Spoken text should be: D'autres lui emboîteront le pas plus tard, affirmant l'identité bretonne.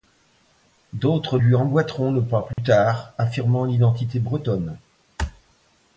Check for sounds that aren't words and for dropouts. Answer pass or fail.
fail